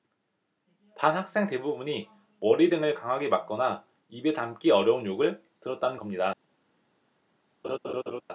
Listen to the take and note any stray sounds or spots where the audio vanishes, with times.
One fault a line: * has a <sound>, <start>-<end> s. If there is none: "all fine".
* has a laugh, 7.6-8.2 s